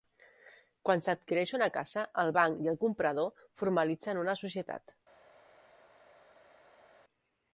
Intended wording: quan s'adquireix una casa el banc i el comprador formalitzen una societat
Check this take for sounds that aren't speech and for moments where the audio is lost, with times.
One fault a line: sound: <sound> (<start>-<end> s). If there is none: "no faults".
no faults